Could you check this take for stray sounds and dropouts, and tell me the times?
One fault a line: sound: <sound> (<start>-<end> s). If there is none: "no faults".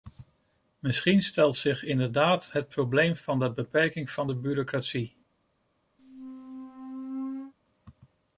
sound: squeak (6.0-7.5 s)